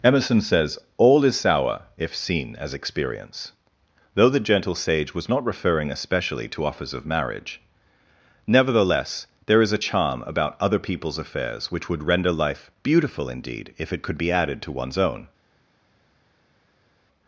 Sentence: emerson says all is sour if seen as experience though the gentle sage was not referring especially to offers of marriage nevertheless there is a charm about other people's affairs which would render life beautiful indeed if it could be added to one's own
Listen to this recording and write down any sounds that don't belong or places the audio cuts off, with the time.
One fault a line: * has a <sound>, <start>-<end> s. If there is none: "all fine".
all fine